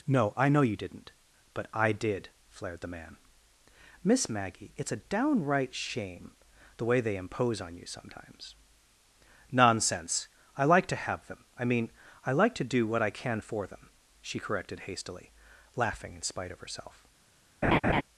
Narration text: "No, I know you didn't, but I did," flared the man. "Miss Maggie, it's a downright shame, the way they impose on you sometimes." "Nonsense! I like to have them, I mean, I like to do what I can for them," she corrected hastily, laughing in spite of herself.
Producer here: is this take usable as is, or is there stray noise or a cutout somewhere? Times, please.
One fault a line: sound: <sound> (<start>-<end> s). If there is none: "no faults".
sound: laugh (17.6-18.0 s)